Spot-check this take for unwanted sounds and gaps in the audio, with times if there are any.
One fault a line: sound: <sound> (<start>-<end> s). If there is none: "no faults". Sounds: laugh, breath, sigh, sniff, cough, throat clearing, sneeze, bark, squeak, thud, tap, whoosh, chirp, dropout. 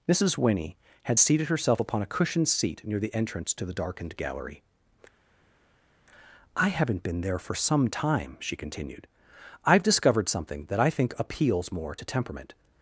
no faults